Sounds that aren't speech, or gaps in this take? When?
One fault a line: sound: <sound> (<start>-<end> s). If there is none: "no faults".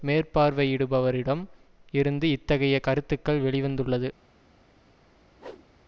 sound: whoosh (5.4-5.7 s)